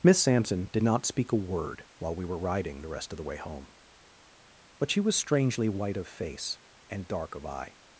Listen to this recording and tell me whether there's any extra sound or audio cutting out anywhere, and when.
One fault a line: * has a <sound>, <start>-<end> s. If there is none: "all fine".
all fine